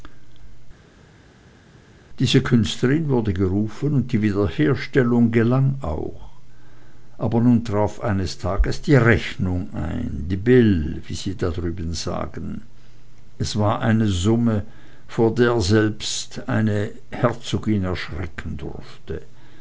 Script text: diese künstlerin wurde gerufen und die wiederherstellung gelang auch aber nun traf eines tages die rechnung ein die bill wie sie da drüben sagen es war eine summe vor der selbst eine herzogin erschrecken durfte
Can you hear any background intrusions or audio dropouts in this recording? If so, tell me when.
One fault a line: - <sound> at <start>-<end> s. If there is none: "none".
none